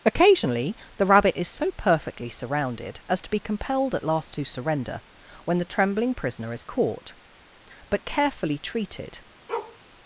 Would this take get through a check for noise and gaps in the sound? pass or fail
fail